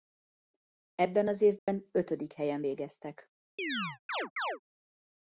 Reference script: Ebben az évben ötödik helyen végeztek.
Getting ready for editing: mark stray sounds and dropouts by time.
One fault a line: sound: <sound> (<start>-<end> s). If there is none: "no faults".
sound: dropout (1.6-1.7 s)
sound: chirp (3.6-4.6 s)